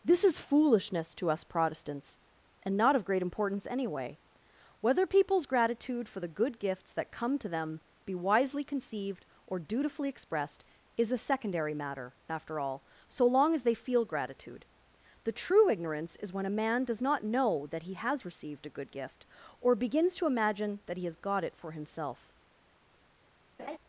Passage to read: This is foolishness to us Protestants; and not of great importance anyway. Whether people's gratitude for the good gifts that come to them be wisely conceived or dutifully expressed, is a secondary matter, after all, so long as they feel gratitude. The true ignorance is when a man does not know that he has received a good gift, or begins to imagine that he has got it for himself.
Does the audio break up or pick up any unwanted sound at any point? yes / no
yes